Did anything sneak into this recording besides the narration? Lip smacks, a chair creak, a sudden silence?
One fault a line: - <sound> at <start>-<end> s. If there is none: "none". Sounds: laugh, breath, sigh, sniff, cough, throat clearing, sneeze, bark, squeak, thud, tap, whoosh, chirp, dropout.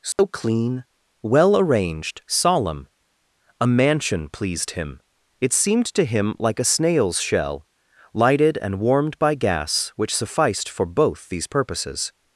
- dropout at 0.1-0.2 s